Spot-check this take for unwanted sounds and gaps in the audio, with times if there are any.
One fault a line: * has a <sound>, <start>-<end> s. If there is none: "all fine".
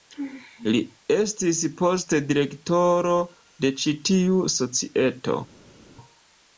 all fine